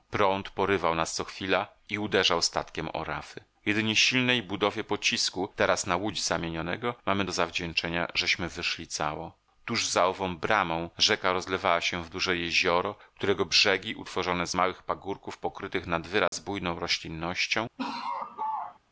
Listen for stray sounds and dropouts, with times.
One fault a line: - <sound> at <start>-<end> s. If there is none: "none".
- dropout at 16.3-16.3 s
- laugh at 17.8-18.8 s